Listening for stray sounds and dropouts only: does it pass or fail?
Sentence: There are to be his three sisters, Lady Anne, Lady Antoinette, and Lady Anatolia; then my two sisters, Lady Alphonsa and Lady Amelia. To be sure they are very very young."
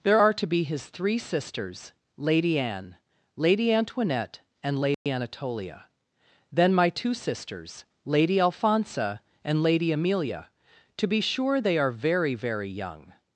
fail